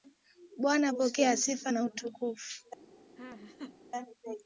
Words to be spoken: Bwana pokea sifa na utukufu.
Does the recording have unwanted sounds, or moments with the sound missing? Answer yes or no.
yes